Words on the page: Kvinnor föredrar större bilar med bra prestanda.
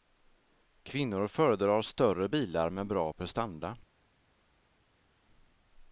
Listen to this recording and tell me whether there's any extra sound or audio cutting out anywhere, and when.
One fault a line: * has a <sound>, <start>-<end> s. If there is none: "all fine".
all fine